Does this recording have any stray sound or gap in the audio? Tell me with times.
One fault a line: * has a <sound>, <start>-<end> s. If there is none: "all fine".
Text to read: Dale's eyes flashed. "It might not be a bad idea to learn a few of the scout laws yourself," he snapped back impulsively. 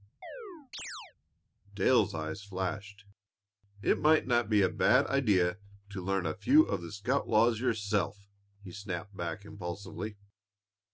* has a chirp, 0.2-1.1 s